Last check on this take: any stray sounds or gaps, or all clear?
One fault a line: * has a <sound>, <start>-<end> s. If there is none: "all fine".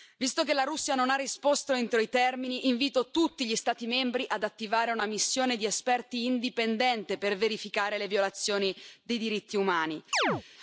* has a chirp, 10.1-10.4 s